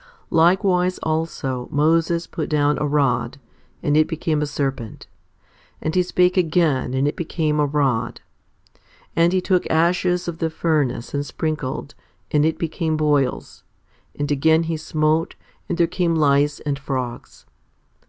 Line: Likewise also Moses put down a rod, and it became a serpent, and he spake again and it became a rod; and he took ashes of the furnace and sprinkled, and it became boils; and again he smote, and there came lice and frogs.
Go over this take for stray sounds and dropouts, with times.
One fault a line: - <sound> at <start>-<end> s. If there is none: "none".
none